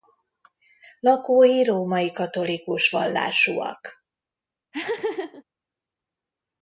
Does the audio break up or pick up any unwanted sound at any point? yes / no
yes